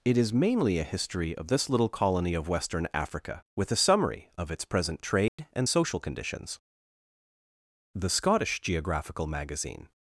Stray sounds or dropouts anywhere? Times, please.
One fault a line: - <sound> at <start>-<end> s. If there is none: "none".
- dropout at 5.3-5.4 s